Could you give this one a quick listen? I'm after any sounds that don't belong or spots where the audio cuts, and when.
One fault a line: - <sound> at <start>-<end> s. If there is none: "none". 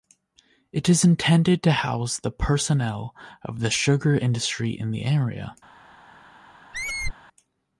- squeak at 6.7-7.1 s